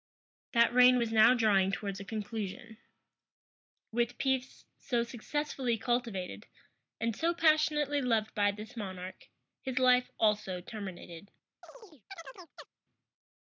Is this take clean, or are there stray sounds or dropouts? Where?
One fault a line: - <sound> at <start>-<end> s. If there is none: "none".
- chirp at 11.6-12.7 s